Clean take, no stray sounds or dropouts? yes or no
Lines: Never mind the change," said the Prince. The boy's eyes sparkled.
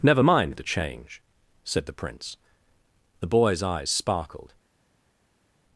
yes